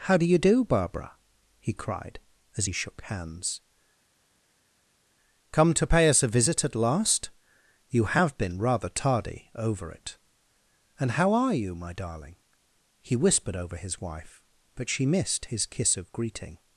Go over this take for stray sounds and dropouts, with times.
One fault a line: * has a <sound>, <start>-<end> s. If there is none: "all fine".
all fine